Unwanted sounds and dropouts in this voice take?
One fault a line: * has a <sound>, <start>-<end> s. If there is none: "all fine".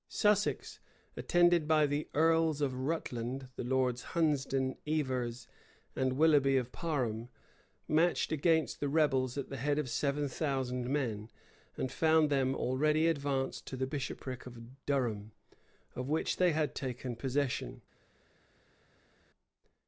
all fine